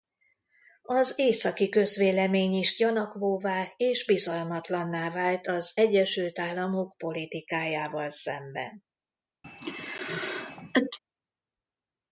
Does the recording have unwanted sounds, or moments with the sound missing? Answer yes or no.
yes